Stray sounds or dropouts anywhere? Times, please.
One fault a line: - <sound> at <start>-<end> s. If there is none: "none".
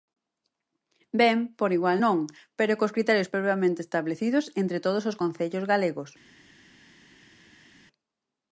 none